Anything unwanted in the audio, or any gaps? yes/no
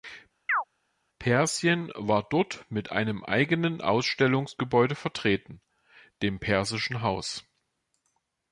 yes